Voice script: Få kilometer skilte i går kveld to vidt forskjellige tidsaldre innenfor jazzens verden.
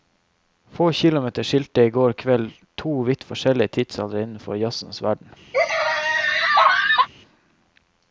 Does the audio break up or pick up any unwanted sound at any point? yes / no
yes